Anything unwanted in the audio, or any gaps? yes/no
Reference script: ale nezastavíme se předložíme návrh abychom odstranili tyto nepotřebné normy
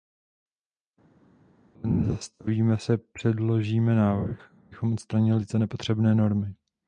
no